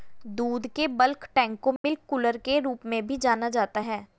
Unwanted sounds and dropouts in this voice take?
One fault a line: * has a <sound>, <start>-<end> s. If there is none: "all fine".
* has a dropout, 1.8-1.8 s